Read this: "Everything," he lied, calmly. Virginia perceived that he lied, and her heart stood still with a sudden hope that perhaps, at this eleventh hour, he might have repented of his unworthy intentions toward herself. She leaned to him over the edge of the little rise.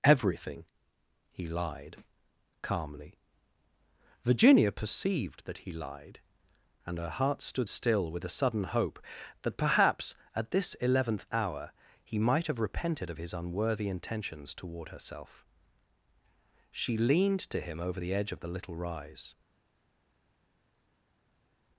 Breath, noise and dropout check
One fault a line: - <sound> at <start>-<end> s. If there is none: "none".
none